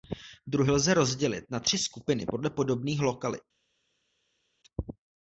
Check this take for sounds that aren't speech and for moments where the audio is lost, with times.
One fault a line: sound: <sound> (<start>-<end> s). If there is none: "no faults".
no faults